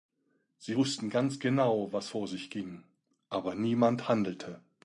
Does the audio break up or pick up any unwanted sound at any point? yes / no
no